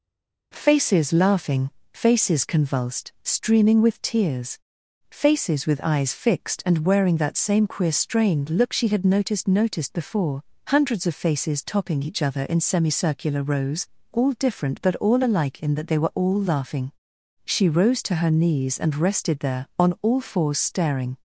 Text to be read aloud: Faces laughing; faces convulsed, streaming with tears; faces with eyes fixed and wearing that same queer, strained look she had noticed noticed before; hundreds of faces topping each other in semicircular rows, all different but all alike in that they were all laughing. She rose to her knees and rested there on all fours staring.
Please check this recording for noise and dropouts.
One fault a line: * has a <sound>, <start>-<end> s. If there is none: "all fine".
all fine